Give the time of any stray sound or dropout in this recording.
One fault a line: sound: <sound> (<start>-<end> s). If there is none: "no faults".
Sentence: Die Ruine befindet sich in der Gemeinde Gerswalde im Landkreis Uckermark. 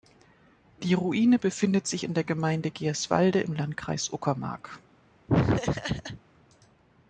sound: laugh (5.3-6.2 s)